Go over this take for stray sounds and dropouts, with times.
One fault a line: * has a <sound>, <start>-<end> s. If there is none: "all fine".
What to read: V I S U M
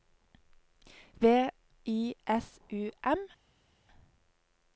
all fine